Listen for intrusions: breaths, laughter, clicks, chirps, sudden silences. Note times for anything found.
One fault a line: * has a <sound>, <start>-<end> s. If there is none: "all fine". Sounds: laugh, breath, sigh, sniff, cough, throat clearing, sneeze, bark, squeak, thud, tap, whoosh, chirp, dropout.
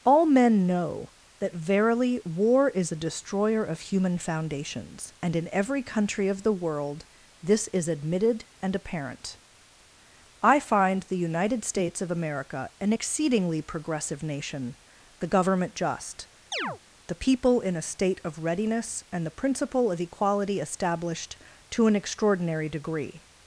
* has a chirp, 16.5-16.8 s